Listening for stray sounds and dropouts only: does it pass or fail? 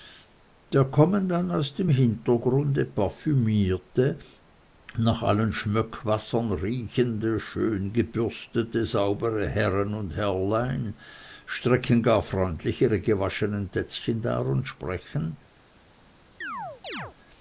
fail